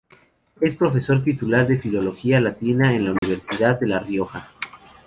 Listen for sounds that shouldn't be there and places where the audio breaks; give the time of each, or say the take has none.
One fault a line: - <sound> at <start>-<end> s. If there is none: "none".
- dropout at 3.2-3.2 s